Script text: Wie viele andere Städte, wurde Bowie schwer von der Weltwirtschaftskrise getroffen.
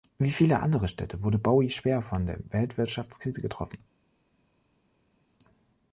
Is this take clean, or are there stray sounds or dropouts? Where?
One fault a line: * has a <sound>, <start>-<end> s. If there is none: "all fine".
all fine